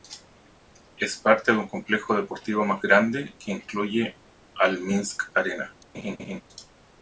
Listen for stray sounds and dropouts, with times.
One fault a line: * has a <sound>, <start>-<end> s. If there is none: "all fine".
* has a laugh, 5.9-6.4 s